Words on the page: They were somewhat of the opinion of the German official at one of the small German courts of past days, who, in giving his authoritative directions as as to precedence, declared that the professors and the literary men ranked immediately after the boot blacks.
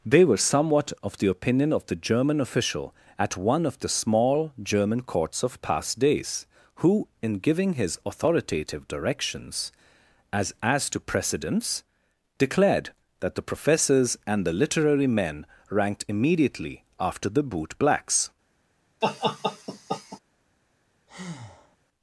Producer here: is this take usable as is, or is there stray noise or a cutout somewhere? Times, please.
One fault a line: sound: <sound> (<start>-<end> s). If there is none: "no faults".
sound: laugh (19.0-20.2 s)
sound: breath (21.1-21.8 s)